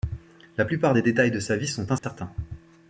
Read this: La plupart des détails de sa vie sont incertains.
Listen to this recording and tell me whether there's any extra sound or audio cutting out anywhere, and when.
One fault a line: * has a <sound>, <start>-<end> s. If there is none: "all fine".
* has a dropout, 2.0-2.0 s